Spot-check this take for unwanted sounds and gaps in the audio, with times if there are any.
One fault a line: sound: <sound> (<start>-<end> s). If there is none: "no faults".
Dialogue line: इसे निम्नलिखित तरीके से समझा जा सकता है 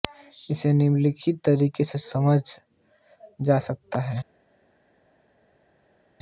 no faults